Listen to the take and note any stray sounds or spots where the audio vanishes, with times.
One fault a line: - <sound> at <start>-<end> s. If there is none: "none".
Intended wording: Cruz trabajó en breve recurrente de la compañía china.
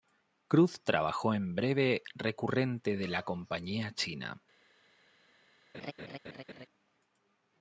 - laugh at 5.7-6.7 s